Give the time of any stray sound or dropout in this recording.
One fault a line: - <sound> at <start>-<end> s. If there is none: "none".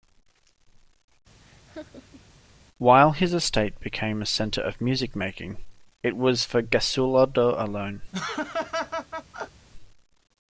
- laugh at 1.4-2.3 s
- laugh at 8.1-9.7 s